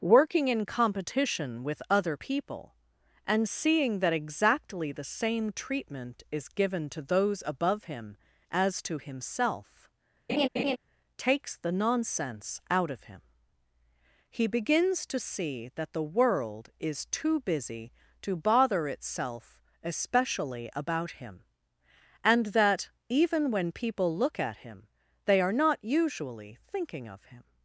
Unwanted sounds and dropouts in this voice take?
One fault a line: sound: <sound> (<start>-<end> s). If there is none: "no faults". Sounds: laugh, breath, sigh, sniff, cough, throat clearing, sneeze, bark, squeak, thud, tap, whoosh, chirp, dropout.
sound: laugh (10.3-10.8 s)